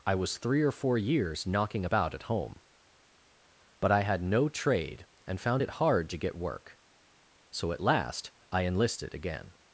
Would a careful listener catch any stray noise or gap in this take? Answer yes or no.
no